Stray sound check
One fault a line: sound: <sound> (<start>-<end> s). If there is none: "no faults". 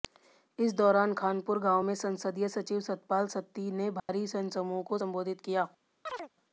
sound: dropout (4.0-4.1 s)
sound: chirp (6.1-6.3 s)